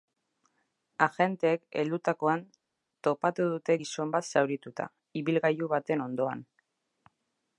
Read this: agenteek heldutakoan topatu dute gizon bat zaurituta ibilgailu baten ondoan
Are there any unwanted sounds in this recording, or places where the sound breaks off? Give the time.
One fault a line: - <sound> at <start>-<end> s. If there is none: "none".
none